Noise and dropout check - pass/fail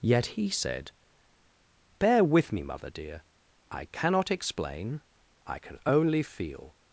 pass